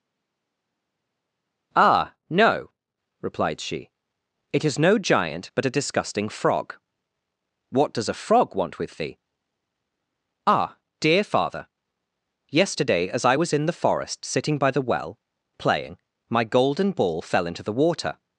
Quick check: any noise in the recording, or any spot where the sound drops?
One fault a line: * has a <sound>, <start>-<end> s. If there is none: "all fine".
all fine